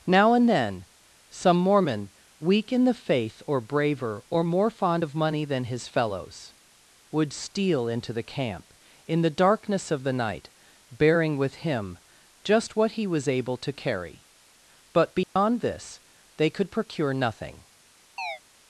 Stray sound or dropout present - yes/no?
yes